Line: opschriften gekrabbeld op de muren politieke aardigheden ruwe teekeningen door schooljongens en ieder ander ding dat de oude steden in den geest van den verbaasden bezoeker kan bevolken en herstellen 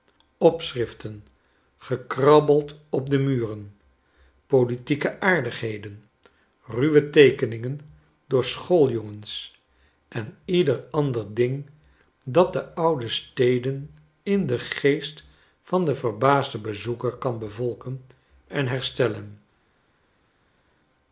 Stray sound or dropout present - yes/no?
no